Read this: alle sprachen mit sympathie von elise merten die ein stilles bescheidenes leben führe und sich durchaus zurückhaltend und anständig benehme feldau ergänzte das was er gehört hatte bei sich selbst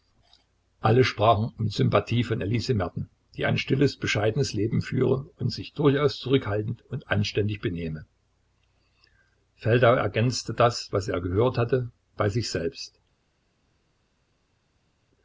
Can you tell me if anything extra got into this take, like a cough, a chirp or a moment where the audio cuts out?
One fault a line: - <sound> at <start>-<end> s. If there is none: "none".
none